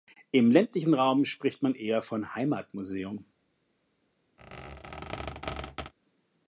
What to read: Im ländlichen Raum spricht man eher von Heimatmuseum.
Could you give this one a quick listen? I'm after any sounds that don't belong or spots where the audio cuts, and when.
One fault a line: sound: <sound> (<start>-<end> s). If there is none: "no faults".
sound: squeak (4.4-5.9 s)